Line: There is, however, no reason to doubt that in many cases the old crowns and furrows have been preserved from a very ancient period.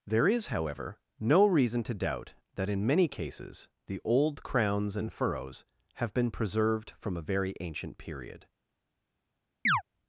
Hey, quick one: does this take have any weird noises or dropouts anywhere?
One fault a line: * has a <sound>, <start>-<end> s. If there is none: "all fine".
* has a chirp, 9.7-9.8 s